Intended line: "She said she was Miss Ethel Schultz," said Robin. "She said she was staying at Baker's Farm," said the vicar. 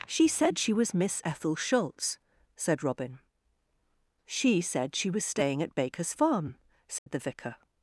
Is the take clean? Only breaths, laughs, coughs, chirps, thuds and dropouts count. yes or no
no